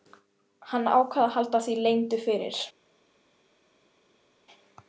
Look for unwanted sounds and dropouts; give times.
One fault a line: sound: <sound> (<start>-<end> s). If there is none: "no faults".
no faults